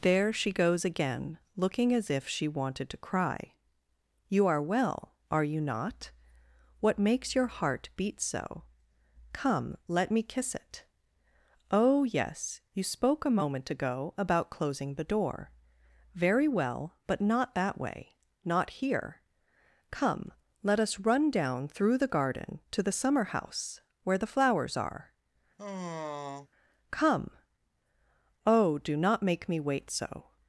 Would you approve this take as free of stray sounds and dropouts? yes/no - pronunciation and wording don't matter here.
no